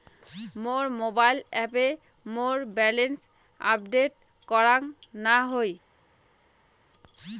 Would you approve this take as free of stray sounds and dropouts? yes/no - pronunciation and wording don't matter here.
yes